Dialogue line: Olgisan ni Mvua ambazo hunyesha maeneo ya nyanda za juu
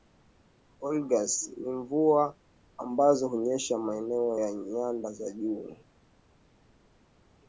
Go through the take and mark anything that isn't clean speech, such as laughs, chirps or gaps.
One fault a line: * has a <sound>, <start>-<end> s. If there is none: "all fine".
all fine